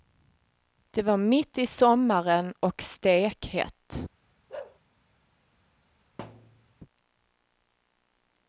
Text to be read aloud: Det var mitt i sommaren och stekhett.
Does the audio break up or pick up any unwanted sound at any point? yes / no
yes